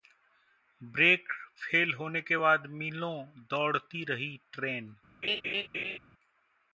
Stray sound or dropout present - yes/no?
yes